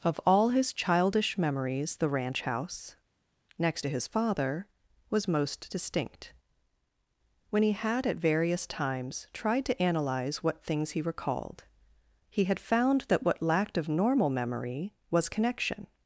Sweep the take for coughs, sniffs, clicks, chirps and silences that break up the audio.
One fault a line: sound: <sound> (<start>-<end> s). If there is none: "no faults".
no faults